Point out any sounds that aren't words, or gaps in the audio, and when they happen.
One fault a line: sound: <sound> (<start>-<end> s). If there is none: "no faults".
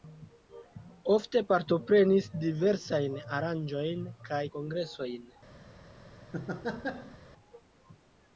sound: laugh (6.3-7.2 s)